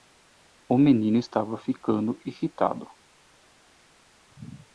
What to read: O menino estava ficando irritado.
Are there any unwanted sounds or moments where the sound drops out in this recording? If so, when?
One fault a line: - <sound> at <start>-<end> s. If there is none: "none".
none